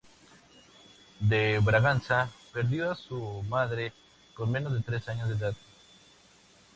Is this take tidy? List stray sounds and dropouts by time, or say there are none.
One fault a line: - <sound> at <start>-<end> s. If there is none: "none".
none